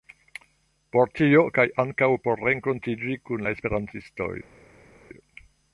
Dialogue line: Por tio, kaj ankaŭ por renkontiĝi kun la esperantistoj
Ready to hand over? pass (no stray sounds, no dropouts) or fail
pass